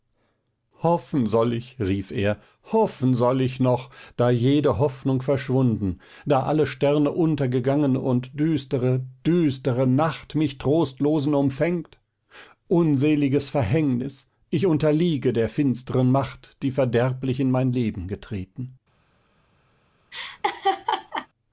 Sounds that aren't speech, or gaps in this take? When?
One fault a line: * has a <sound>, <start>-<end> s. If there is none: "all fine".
* has a laugh, 20.1-21.3 s